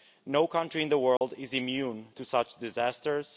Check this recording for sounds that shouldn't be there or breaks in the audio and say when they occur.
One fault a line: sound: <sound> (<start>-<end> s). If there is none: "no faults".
sound: dropout (1.2-1.2 s)